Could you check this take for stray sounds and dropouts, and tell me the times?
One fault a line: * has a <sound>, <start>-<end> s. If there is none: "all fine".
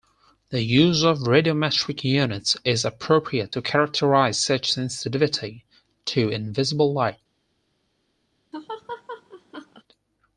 * has a laugh, 8.5-9.8 s